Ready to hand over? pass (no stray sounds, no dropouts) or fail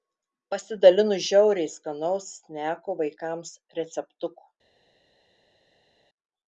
pass